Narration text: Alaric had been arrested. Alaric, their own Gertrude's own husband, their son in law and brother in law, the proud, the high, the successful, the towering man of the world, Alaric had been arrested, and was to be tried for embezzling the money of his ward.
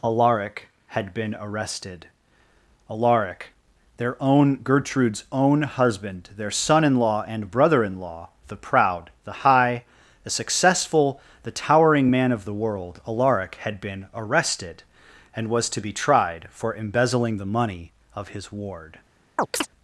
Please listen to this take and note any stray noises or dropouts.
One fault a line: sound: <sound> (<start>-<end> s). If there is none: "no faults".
sound: chirp (19.4-19.7 s)